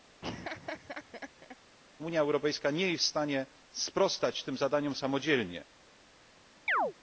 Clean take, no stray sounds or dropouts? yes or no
no